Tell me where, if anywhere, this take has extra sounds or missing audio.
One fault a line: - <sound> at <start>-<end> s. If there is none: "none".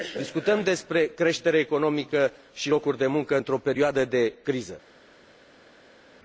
none